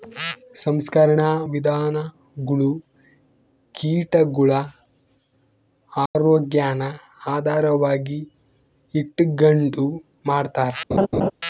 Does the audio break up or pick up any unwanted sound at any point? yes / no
yes